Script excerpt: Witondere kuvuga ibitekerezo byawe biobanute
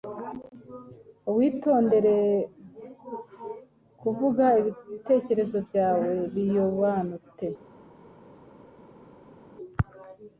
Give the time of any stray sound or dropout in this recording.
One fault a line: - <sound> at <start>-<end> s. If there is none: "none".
none